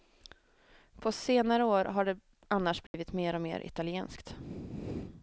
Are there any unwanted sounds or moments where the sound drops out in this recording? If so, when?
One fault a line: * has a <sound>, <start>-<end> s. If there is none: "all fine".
* has a dropout, 2.9-2.9 s